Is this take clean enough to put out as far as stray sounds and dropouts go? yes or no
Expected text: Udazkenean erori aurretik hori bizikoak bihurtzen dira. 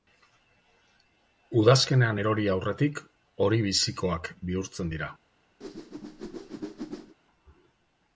no